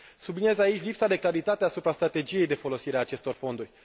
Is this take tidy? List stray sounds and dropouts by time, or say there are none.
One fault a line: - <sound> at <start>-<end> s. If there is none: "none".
none